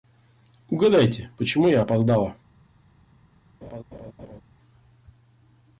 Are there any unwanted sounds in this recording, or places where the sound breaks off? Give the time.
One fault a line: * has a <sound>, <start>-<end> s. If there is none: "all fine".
* has a laugh, 3.6-4.4 s